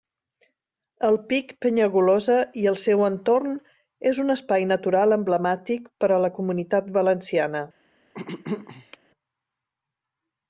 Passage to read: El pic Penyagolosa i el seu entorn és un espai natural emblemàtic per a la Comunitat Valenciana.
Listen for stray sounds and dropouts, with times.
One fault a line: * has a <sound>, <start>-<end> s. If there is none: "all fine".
* has a throat clearing, 8.1-9.0 s